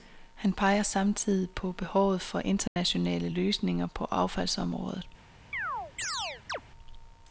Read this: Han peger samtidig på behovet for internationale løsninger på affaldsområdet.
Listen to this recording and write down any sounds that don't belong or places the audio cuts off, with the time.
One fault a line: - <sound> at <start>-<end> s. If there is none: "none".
- dropout at 2.7-2.8 s
- chirp at 5.5-6.6 s